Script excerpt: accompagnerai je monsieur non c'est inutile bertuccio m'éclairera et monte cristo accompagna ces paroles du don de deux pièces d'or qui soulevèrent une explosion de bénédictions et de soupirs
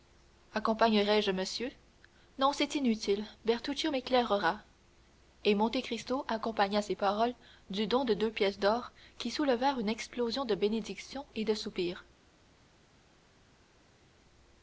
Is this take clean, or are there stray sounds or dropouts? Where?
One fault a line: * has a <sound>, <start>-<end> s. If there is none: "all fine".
all fine